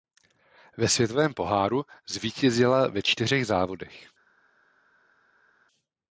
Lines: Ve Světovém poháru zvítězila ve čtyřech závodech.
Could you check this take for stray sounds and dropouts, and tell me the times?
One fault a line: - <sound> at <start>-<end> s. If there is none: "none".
none